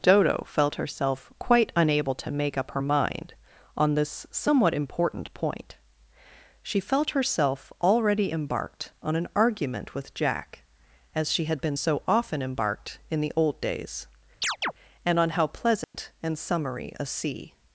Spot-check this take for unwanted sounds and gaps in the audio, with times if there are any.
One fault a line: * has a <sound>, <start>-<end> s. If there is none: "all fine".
* has a chirp, 14.4-14.7 s
* has a dropout, 15.8-15.9 s